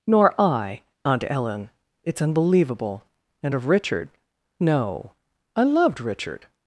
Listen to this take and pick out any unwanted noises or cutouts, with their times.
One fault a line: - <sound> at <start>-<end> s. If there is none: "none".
none